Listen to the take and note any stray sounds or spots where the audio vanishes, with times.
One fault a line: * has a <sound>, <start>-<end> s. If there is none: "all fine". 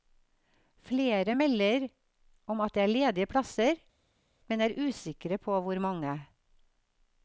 all fine